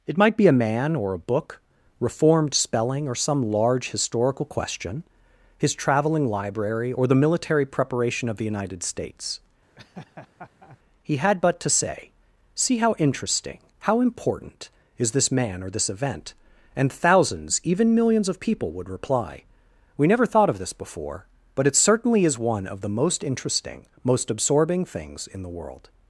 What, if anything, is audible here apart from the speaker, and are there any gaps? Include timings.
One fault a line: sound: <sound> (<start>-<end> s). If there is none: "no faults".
sound: laugh (9.8-10.8 s)